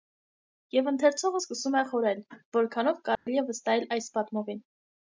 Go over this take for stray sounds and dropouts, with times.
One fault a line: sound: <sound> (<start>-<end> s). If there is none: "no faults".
sound: dropout (3.2-3.3 s)